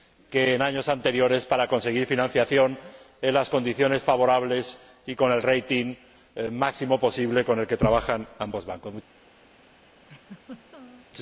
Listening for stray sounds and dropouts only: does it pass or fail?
fail